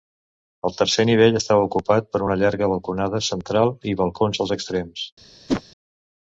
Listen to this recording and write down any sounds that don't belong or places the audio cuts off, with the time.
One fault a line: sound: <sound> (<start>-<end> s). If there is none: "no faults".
sound: whoosh (5.5-5.6 s)